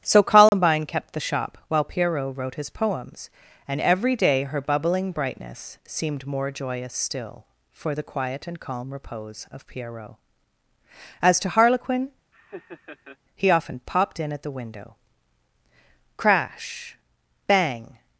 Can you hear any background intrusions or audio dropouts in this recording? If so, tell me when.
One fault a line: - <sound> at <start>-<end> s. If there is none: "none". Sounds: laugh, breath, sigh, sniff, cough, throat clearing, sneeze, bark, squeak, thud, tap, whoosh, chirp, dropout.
- dropout at 0.5-0.5 s
- laugh at 12.3-13.2 s